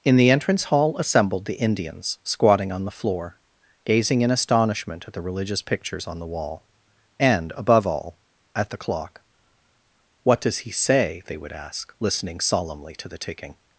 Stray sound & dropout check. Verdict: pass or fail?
pass